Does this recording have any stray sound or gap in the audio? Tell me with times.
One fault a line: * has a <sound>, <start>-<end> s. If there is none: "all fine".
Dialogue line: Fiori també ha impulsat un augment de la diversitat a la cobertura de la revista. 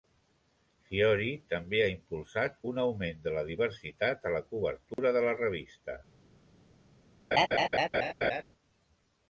* has a dropout, 4.9-5.0 s
* has a laugh, 7.3-8.4 s